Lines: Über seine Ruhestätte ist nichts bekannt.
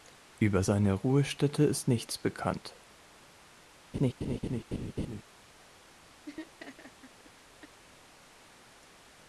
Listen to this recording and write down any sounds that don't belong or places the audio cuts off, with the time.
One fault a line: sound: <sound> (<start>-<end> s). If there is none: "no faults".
sound: laugh (3.9-5.2 s)
sound: laugh (6.3-7.8 s)